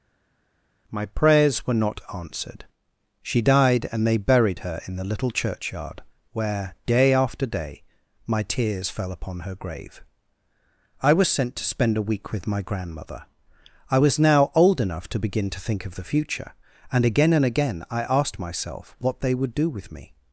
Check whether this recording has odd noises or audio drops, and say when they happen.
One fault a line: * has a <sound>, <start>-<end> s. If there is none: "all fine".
all fine